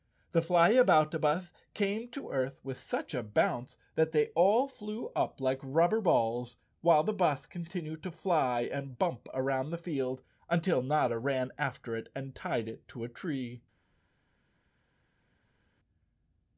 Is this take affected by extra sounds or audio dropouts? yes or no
no